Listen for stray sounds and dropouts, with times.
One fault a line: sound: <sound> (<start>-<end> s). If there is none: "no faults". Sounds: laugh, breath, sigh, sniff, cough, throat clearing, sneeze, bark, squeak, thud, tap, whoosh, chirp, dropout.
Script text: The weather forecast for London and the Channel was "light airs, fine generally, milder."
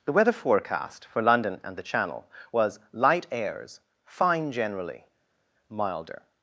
no faults